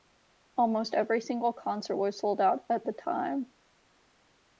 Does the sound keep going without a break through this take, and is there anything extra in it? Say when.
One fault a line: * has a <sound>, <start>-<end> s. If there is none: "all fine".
all fine